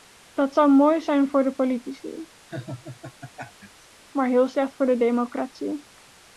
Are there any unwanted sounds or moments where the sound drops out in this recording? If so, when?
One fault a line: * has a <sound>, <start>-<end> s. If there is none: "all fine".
* has a laugh, 2.5-3.9 s